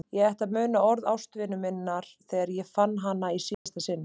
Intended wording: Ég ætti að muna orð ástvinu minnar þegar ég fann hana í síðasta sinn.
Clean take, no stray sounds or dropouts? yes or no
no